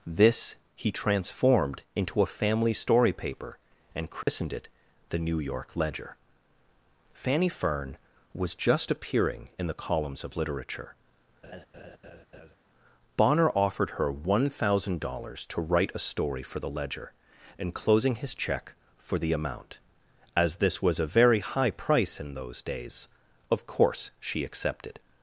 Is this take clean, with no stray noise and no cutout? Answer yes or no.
no